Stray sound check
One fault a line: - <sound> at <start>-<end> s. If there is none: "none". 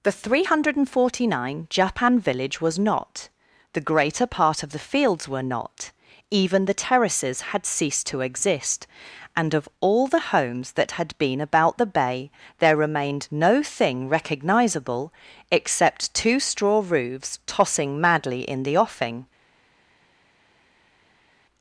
none